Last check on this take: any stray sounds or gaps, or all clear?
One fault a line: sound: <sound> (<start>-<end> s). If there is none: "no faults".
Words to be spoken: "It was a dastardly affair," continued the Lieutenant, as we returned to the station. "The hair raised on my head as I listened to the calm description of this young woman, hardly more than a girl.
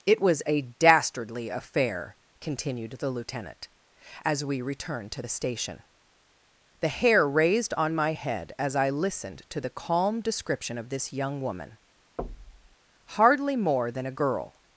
sound: thud (12.2-12.8 s)